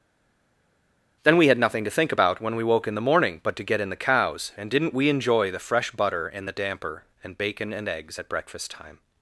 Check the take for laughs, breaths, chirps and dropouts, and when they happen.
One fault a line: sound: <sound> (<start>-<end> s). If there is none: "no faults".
no faults